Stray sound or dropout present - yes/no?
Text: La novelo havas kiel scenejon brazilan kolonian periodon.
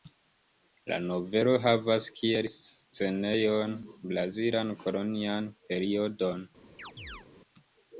yes